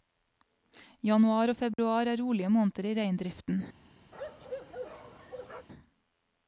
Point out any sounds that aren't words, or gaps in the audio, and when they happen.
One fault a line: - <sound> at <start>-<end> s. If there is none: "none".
- dropout at 1.7-1.8 s
- bark at 4.1-5.7 s